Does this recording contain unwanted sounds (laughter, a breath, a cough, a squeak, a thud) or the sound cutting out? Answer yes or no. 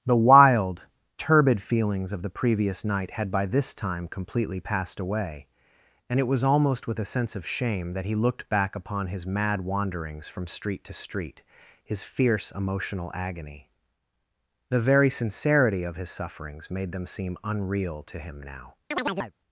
yes